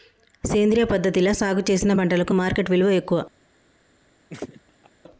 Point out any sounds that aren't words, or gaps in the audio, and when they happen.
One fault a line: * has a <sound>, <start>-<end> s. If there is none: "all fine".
* has a laugh, 4.3-4.9 s